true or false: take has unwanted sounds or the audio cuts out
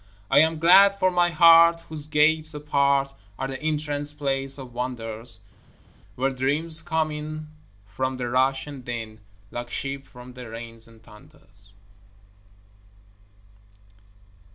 false